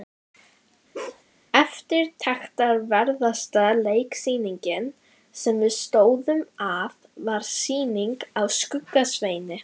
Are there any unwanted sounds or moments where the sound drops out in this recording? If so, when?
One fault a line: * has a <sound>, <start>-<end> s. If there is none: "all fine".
* has a bark, 0.9-1.2 s